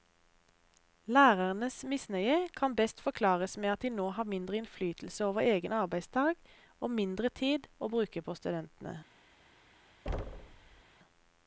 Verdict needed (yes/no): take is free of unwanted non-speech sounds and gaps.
no